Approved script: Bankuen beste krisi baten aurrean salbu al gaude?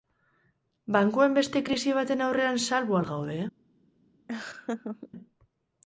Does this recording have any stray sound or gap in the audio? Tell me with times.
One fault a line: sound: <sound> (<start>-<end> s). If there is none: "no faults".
sound: laugh (4.3-5.1 s)